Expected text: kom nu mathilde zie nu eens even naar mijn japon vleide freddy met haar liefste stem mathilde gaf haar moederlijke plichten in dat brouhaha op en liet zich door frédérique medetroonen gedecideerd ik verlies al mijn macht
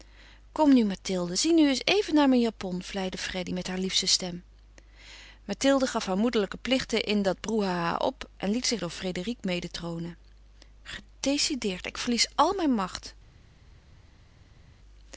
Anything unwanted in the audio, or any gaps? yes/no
no